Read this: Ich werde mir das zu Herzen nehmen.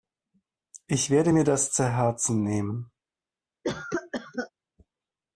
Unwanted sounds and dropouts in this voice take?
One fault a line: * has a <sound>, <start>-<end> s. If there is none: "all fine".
* has a cough, 3.6-4.5 s